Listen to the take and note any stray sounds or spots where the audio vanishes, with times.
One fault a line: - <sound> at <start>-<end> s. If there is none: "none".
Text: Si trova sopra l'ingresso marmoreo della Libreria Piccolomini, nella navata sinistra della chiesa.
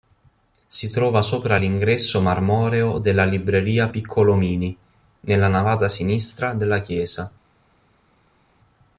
none